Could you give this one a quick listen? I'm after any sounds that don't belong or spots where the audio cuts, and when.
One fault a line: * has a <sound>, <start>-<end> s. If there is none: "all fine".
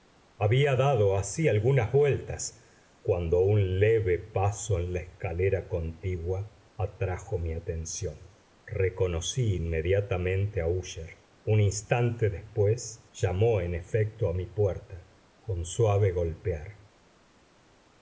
all fine